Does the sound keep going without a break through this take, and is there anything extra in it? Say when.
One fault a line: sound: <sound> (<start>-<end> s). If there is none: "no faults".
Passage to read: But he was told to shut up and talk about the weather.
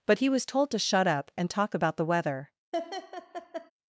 sound: laugh (2.7-3.7 s)